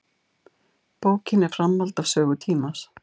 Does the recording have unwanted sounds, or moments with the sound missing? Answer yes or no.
no